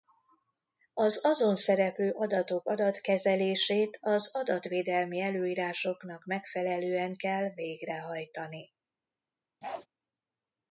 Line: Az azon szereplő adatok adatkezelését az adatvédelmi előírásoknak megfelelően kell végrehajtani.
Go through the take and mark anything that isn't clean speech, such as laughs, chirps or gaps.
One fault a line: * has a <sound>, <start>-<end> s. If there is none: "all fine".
* has a bark, 9.6-9.9 s